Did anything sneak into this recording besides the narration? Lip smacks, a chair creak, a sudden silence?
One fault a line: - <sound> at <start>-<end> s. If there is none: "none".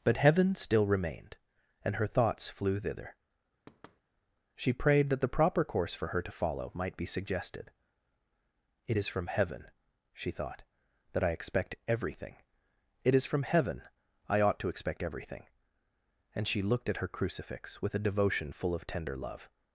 - thud at 3.7-4.0 s